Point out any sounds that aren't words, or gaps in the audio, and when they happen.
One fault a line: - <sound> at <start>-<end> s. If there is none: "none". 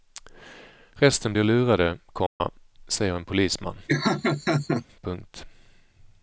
- dropout at 2.3-2.4 s
- laugh at 3.9-4.9 s